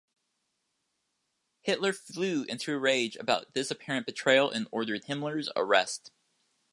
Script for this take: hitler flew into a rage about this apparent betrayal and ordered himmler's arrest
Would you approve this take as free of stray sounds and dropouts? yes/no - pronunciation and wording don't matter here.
yes